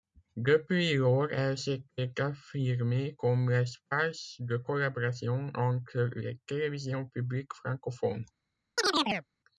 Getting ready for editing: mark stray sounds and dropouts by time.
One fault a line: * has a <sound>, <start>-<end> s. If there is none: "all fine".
* has a chirp, 8.8-9.3 s